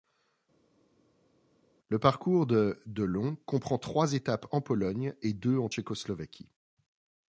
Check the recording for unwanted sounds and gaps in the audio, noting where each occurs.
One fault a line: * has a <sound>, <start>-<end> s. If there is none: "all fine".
all fine